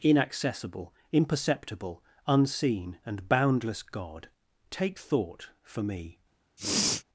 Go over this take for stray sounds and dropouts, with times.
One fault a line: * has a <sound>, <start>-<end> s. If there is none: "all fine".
* has a sniff, 6.6-7.0 s